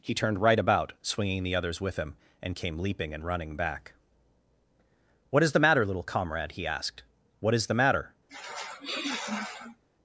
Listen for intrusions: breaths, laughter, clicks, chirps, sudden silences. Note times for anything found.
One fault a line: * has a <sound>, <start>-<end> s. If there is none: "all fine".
* has a sniff, 8.3-9.8 s